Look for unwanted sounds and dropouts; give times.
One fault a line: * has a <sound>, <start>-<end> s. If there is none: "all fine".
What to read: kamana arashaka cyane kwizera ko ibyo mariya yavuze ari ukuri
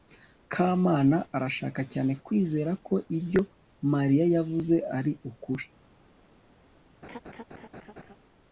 * has a laugh, 7.0-8.2 s